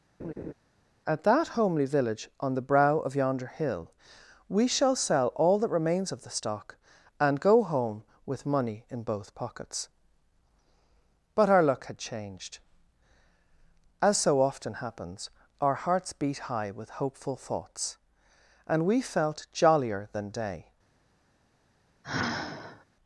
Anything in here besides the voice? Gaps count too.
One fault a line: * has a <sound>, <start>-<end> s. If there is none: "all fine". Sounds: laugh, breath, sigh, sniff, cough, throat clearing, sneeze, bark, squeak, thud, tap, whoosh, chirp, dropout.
* has a laugh, 0.2-0.5 s
* has a sigh, 22.0-22.8 s